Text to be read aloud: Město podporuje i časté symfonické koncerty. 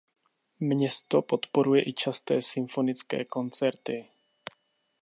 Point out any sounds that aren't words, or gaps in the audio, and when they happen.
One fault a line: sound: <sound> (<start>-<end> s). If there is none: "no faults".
no faults